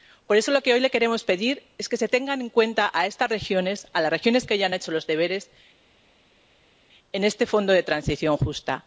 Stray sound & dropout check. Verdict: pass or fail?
pass